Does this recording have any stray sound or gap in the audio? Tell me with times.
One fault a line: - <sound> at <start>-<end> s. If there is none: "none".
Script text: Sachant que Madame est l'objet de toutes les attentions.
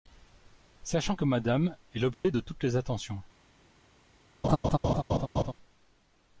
- dropout at 2.1-2.2 s
- laugh at 4.4-5.5 s